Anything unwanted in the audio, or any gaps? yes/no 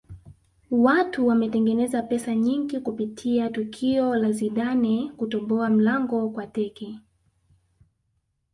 no